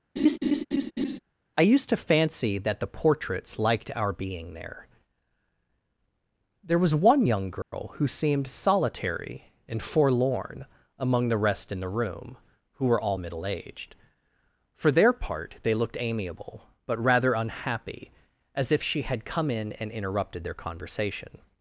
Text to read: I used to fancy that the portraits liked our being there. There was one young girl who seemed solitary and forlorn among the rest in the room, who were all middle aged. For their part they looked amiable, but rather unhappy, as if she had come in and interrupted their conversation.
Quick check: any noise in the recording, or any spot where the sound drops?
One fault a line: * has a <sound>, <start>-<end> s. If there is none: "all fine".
* has a laugh, 0.2-1.2 s
* has a dropout, 7.6-7.7 s